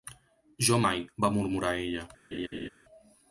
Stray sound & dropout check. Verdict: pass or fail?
fail